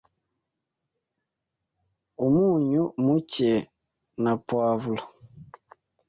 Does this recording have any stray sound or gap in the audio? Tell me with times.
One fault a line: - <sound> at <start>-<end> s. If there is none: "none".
none